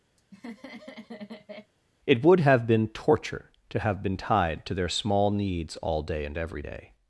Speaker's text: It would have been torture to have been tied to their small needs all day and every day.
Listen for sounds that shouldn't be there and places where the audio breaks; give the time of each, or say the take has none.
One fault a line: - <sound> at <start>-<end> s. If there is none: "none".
- laugh at 0.2-1.7 s